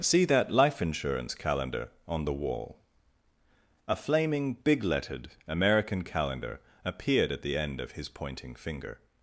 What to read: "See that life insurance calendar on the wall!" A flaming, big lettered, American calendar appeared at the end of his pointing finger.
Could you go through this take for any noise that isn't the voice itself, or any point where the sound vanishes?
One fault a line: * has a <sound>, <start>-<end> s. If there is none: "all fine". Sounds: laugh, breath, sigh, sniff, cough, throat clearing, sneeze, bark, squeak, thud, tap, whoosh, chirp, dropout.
all fine